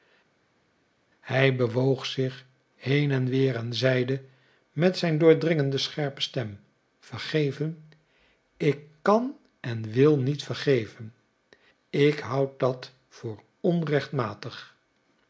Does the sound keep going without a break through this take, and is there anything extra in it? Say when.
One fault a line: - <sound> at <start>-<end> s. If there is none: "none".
none